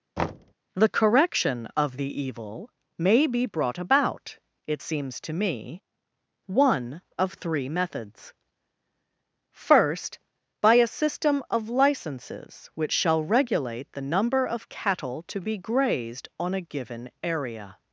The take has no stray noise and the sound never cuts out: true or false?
false